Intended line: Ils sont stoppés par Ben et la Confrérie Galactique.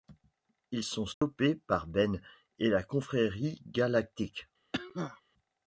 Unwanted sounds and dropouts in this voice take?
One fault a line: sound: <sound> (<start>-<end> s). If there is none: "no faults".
sound: dropout (1.1-1.2 s)
sound: cough (4.7-5.2 s)